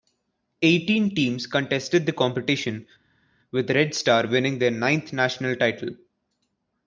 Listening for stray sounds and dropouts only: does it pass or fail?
pass